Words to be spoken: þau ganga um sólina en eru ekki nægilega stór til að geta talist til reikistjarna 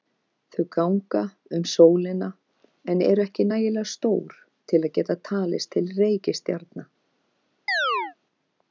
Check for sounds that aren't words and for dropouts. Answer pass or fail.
fail